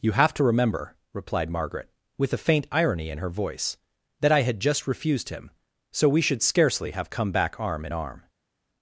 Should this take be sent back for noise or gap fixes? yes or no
no